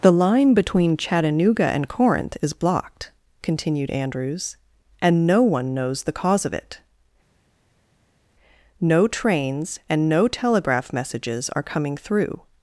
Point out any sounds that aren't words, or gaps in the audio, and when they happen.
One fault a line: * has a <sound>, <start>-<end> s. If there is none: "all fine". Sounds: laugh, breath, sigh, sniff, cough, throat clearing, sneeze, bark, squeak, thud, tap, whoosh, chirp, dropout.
all fine